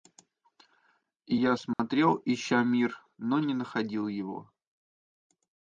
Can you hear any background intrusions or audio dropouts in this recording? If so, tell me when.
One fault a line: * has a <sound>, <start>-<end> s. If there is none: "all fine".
* has a dropout, 1.7-1.8 s